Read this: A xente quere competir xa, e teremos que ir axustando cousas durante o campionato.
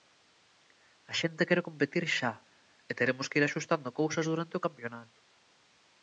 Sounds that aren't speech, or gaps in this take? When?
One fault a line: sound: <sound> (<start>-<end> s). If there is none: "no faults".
no faults